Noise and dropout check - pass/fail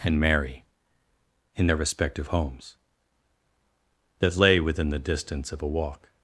pass